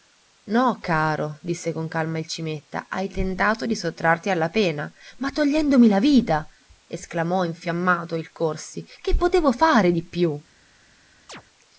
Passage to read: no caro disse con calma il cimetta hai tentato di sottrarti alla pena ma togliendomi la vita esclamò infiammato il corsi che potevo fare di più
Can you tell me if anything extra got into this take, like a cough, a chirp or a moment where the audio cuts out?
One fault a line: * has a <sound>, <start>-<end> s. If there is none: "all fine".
* has a chirp, 11.3-11.4 s